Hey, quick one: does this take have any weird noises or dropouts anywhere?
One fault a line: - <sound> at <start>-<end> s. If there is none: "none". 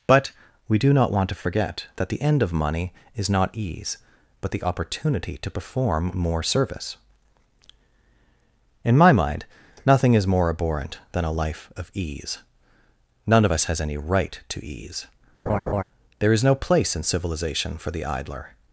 - laugh at 15.5-15.8 s